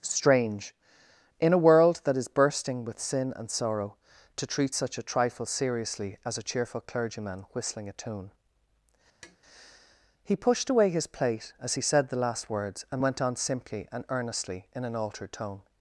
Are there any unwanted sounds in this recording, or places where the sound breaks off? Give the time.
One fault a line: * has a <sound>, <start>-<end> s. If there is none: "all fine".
* has a tap, 9.2-9.4 s